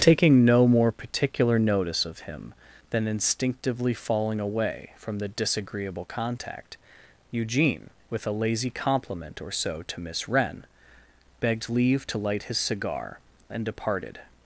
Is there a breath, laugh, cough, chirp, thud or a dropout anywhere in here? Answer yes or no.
no